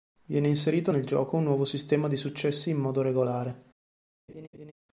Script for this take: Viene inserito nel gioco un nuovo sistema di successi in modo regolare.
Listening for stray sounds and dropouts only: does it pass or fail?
fail